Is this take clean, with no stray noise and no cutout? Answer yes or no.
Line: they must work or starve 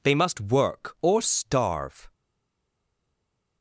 yes